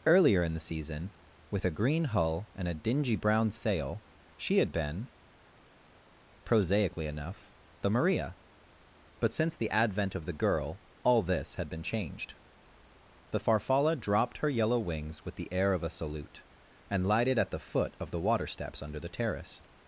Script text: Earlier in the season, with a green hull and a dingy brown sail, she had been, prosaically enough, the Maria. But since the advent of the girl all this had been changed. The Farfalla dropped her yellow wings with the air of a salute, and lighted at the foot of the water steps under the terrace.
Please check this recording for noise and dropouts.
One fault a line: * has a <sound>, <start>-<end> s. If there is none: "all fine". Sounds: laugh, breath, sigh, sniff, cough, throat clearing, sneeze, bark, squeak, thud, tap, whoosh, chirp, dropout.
all fine